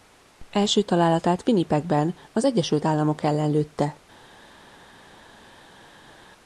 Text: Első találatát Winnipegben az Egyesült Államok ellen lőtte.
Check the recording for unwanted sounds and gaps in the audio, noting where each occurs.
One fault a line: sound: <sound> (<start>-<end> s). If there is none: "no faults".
no faults